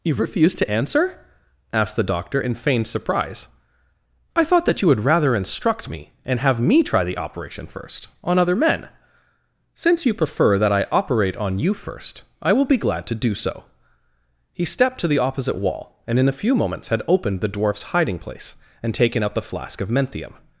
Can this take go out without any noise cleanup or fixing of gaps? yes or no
yes